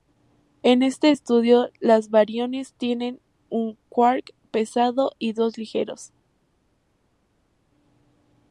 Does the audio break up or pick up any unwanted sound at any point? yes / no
no